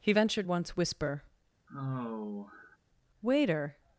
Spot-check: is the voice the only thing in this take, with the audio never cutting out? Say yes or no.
no